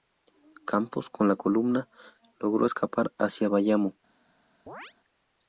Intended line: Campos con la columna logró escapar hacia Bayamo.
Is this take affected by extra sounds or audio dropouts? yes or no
yes